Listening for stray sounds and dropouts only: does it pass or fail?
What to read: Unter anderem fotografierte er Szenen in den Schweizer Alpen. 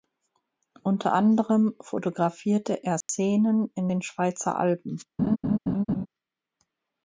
fail